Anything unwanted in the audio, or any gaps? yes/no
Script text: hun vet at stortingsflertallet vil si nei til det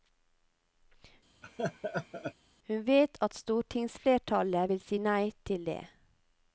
yes